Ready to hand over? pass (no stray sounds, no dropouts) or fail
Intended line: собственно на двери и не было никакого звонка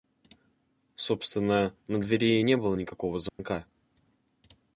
fail